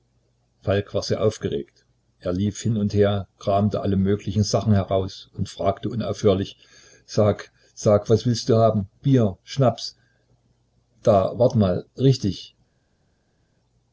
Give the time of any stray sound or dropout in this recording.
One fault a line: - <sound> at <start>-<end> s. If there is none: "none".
none